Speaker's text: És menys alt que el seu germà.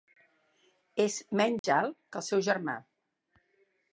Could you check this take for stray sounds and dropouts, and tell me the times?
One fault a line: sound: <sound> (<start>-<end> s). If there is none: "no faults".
sound: dropout (1.6-1.6 s)